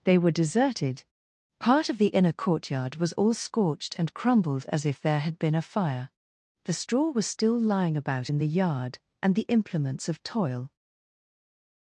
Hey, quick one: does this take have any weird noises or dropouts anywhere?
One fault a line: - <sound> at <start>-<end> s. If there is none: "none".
none